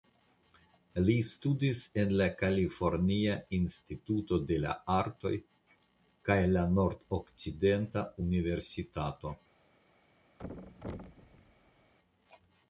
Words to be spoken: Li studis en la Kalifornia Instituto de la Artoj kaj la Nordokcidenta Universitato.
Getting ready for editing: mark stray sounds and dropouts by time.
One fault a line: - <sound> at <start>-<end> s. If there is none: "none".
- thud at 10.4-11.9 s